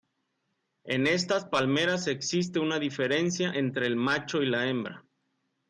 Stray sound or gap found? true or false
false